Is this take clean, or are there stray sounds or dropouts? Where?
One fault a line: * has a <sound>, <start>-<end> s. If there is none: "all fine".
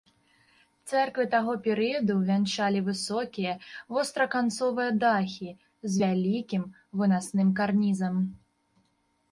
all fine